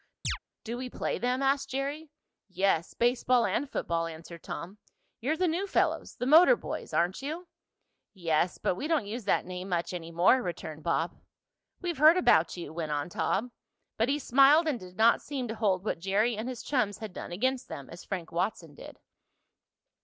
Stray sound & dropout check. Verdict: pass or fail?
fail